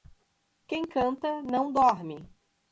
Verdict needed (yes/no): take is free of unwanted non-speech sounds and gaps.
yes